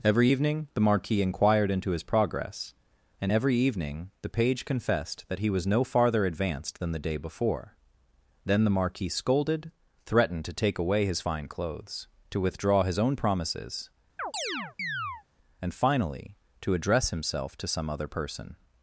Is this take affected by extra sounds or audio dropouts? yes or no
yes